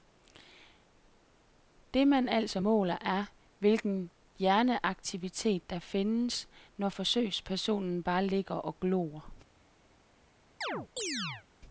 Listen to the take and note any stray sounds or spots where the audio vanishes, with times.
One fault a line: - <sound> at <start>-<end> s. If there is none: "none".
- chirp at 10.6-11.5 s